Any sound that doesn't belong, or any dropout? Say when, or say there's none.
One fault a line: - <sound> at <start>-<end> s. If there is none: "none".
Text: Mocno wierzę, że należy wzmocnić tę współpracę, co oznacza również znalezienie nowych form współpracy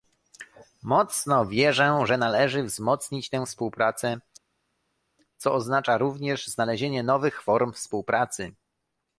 none